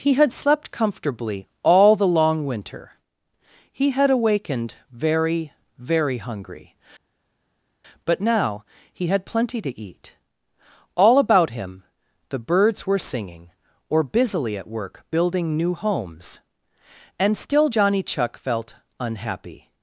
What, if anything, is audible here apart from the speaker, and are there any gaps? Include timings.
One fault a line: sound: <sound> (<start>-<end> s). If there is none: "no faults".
no faults